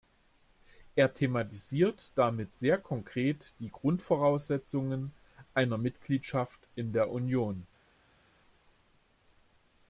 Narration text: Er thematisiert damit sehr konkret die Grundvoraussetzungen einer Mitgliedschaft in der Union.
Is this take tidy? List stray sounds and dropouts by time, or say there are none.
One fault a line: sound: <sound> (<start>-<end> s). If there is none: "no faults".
no faults